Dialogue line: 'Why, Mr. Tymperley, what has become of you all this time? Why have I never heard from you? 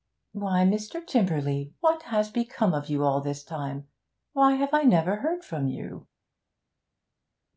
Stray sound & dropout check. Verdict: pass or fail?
pass